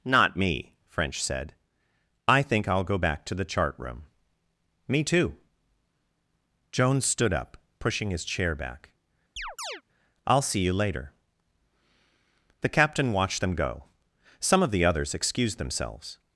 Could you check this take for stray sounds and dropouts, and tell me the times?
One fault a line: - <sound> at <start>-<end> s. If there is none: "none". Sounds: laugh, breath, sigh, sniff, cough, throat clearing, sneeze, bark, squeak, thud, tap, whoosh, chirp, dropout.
- chirp at 9.4-9.8 s